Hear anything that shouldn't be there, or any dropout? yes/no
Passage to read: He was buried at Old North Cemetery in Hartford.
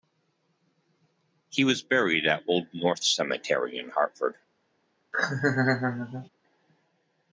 yes